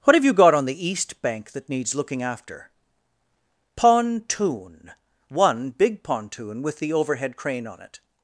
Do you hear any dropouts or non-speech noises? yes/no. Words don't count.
no